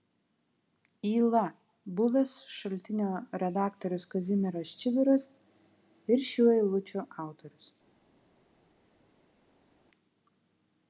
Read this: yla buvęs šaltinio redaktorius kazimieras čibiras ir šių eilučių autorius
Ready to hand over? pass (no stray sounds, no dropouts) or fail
pass